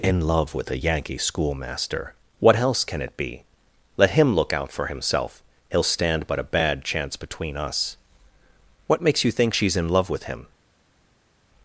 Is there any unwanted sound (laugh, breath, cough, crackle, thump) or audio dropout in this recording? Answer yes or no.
no